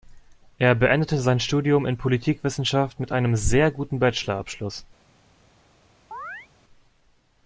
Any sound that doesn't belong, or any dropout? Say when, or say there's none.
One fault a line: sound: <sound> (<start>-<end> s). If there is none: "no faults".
sound: chirp (6.1-6.5 s)